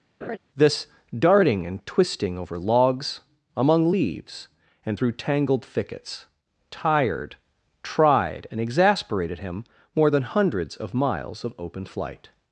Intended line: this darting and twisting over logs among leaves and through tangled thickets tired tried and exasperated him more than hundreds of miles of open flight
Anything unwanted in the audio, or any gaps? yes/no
yes